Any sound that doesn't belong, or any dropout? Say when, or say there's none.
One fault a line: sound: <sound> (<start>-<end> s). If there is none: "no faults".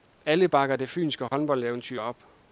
sound: dropout (1.3-1.3 s)